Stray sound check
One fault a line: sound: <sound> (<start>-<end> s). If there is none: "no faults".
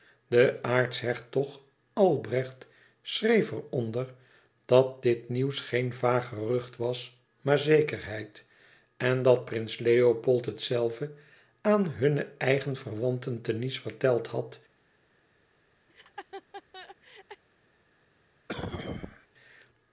sound: laugh (15.9-17.4 s)
sound: cough (18.5-19.3 s)